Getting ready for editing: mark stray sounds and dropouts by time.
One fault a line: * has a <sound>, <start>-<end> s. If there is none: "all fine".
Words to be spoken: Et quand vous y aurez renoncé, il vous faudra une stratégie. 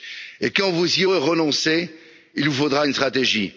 all fine